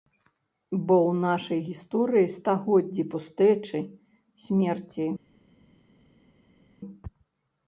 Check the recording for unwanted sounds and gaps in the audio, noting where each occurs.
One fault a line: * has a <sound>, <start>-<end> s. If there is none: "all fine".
all fine